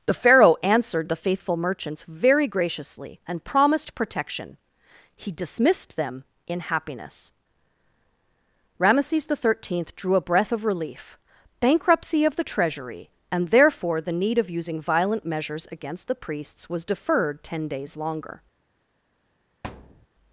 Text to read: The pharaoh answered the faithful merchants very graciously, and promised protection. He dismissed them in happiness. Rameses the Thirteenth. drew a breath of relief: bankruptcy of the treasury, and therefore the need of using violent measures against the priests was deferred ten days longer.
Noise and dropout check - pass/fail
fail